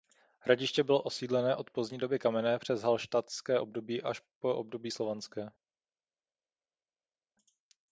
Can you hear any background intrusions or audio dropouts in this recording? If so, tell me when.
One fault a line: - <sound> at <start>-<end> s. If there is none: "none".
none